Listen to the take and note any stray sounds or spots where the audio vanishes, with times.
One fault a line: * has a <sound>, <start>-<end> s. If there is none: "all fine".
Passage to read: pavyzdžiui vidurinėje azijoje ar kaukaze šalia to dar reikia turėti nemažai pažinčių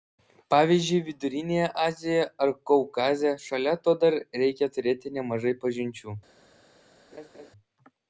* has a laugh, 7.1-7.5 s